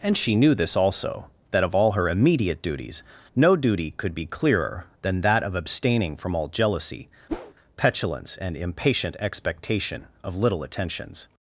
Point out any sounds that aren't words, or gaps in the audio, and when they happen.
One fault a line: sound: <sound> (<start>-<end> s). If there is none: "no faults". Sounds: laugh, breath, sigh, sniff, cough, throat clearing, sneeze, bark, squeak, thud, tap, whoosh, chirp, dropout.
sound: whoosh (7.3-7.5 s)